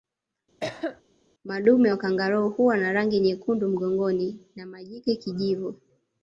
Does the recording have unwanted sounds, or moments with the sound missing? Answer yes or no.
yes